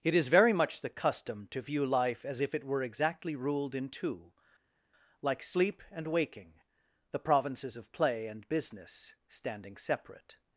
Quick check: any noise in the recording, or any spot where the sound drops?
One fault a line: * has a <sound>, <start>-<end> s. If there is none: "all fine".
all fine